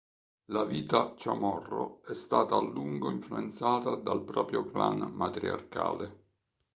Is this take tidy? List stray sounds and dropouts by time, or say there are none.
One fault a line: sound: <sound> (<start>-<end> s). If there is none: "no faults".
no faults